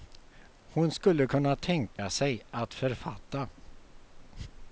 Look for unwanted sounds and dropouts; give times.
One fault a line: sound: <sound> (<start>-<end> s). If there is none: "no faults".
sound: dropout (2.0-2.0 s)